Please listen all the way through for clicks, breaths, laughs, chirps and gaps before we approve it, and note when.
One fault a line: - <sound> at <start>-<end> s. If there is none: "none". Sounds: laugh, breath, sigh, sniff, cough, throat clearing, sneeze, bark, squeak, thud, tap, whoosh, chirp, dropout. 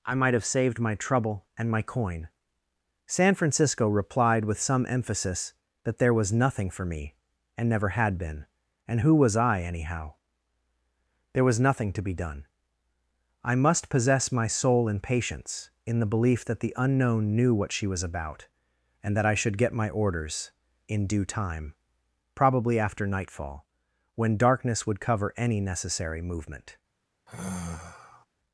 - sigh at 27.3-28.3 s